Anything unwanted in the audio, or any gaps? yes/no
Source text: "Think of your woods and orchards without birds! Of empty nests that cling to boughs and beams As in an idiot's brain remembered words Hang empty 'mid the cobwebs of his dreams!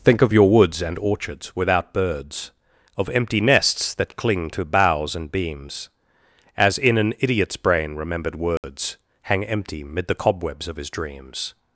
yes